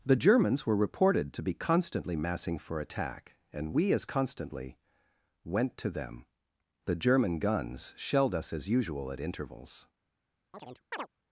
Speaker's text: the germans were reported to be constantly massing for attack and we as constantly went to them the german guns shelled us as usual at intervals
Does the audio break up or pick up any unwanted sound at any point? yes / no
yes